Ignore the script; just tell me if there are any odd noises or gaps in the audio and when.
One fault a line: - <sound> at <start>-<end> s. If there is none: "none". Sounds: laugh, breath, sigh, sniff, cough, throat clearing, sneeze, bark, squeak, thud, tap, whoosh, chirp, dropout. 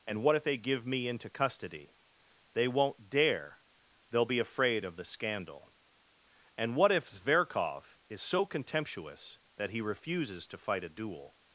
none